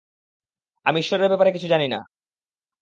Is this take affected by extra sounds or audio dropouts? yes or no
no